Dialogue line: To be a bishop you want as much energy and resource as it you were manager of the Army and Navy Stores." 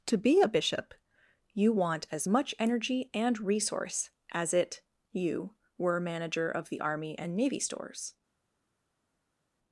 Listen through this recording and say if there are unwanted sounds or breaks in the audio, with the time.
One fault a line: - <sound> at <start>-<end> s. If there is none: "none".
none